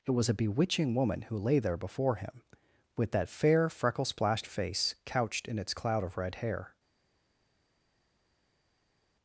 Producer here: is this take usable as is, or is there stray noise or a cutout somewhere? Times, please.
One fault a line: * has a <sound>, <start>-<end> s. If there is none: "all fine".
all fine